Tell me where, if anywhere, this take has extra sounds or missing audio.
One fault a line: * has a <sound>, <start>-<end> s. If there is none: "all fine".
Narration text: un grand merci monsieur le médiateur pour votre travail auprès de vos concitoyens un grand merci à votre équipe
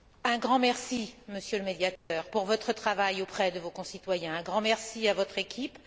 * has a dropout, 2.0-2.1 s